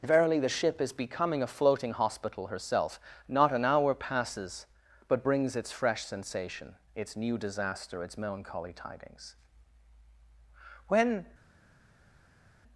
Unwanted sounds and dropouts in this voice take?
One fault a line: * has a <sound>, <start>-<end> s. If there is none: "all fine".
all fine